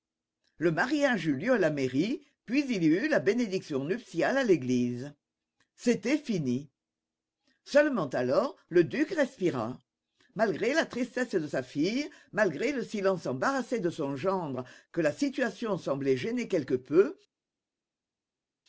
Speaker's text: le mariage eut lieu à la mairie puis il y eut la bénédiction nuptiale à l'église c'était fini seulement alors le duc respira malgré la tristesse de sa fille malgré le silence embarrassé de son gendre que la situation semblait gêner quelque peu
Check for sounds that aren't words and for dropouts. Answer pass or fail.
pass